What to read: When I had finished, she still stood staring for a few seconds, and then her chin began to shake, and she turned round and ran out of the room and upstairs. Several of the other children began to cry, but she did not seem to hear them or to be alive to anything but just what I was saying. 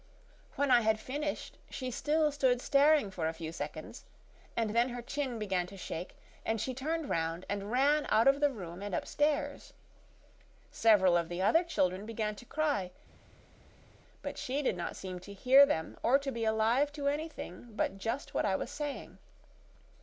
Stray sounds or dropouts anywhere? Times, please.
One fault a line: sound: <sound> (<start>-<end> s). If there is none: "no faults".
no faults